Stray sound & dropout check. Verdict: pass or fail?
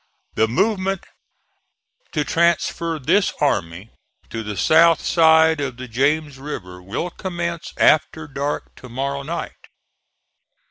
pass